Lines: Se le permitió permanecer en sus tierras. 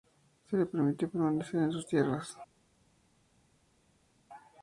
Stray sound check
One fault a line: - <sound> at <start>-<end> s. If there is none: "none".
none